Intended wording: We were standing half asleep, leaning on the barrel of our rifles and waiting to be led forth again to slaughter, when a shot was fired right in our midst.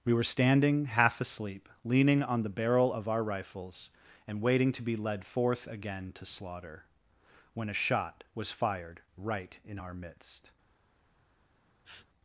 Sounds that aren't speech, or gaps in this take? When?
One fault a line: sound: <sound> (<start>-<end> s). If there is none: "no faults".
sound: sniff (11.8-12.1 s)